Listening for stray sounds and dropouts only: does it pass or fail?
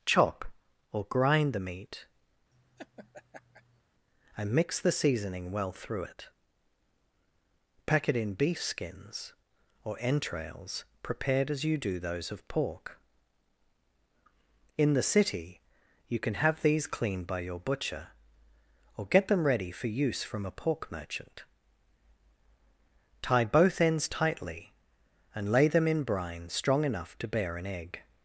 fail